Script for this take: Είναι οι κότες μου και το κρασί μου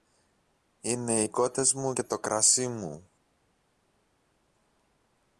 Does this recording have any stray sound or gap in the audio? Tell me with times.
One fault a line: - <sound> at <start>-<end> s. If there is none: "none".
none